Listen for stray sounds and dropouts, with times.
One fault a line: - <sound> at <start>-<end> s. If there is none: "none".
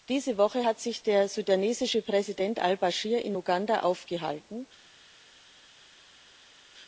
none